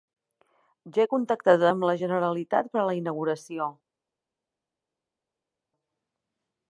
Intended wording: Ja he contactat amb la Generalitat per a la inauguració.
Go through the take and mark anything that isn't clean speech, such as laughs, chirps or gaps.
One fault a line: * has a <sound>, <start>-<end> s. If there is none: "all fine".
all fine